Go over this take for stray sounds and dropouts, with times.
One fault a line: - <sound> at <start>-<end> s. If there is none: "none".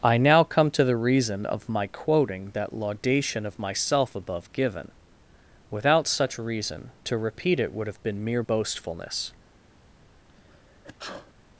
- sneeze at 10.3-11.3 s